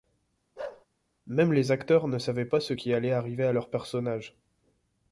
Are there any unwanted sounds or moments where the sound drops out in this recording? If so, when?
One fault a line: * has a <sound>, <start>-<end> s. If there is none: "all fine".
* has a bark, 0.6-0.9 s